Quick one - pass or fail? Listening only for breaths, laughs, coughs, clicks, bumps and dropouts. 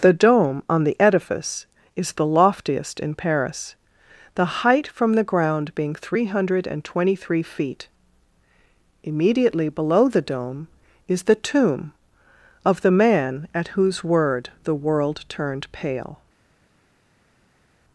pass